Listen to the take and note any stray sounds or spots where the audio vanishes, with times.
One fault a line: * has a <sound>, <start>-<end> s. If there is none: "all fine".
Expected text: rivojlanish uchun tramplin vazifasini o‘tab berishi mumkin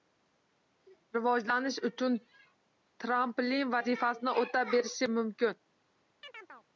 * has a chirp, 6.2-6.7 s